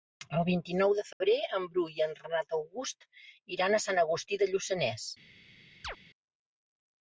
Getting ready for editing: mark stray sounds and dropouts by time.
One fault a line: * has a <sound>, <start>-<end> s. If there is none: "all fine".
* has a dropout, 1.1-1.2 s
* has a chirp, 5.8-6.0 s